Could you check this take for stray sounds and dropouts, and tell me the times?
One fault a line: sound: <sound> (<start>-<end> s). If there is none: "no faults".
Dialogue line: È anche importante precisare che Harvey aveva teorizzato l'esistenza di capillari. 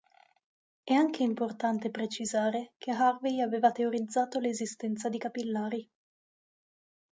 no faults